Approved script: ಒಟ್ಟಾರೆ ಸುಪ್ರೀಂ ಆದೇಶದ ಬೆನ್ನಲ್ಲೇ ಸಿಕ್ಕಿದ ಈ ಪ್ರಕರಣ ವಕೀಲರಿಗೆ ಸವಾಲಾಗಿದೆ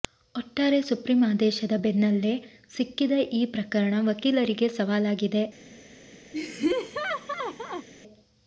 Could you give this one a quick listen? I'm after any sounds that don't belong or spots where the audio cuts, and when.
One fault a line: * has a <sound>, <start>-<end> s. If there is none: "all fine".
* has a laugh, 6.3-7.9 s